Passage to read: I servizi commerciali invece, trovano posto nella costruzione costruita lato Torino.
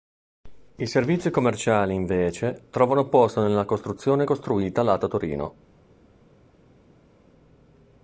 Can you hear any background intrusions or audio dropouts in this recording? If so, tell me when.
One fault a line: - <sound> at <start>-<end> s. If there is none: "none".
none